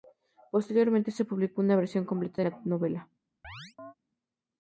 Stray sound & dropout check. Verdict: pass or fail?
fail